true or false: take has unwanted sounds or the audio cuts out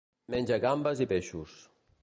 false